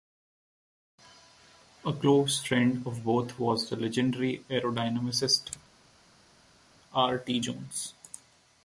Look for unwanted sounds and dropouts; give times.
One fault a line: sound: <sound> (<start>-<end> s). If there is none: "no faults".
no faults